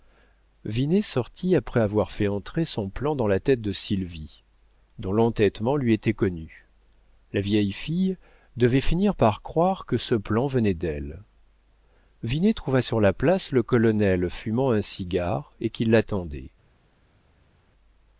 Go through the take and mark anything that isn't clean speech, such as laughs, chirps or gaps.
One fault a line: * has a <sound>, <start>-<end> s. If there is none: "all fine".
all fine